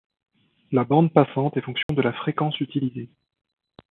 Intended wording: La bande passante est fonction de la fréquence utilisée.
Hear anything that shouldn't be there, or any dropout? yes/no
yes